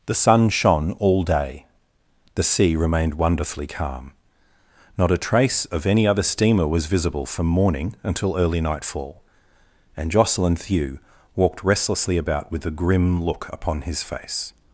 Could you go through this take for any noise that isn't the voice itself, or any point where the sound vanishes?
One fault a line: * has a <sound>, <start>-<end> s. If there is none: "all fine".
all fine